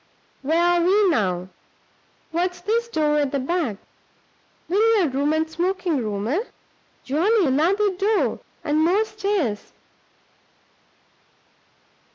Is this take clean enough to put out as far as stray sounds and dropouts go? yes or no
yes